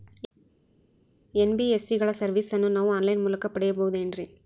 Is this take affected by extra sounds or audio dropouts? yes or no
no